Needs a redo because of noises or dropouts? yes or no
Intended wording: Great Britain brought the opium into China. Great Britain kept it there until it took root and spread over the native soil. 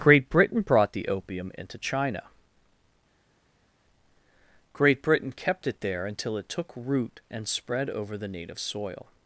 no